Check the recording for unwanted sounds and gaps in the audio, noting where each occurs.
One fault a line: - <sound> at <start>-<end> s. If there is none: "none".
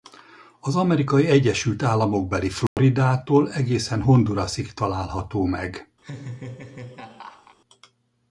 - dropout at 2.7-2.8 s
- laugh at 6.0-7.6 s